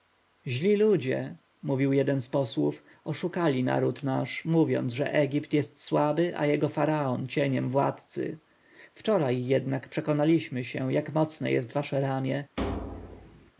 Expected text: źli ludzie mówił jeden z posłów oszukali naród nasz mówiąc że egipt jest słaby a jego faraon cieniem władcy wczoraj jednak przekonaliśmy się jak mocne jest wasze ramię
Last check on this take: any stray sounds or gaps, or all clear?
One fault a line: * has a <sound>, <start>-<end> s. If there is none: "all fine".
* has a thud, 12.6-13.5 s